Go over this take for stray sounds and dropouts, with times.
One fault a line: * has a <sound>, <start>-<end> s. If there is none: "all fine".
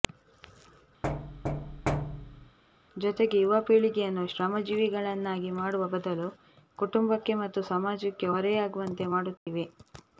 * has a thud, 1.0-2.6 s
* has a dropout, 9.4-9.5 s